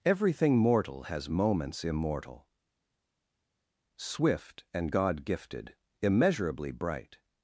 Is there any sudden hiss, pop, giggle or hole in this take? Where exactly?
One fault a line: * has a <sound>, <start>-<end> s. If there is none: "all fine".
all fine